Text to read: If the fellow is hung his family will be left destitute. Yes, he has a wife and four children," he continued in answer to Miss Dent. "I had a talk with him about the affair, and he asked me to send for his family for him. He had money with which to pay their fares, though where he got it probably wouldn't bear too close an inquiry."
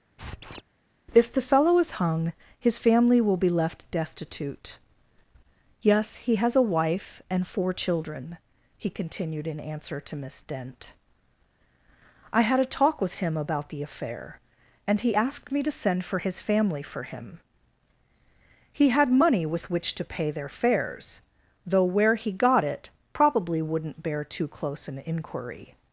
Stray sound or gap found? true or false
true